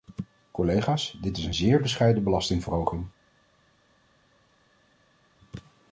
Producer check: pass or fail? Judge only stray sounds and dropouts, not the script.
pass